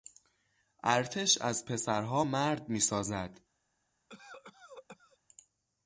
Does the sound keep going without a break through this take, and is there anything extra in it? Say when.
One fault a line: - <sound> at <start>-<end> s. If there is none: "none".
- cough at 4.1-5.2 s